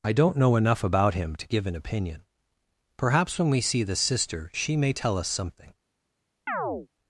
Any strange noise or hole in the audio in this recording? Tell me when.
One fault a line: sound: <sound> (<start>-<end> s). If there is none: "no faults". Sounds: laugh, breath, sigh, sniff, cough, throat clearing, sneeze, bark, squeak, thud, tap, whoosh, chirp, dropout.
sound: chirp (6.5-6.9 s)